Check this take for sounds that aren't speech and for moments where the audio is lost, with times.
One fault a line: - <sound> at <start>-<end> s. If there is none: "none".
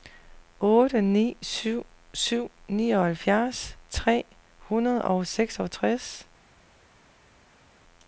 none